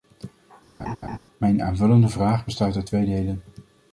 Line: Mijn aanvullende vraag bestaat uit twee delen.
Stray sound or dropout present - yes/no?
yes